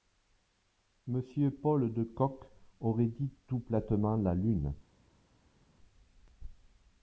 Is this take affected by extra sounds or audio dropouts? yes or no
no